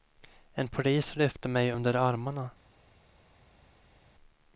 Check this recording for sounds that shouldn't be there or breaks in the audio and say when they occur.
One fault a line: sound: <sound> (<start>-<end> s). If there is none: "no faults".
no faults